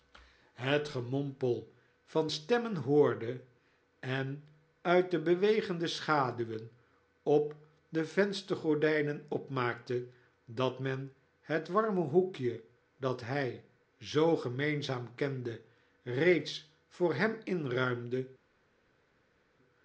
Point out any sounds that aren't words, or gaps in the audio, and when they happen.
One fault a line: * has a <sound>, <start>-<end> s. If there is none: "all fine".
all fine